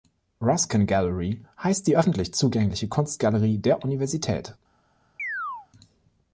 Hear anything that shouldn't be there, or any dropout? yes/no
yes